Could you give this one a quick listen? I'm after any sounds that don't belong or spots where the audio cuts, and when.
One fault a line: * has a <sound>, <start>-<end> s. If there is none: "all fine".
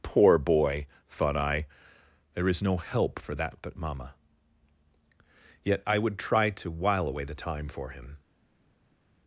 all fine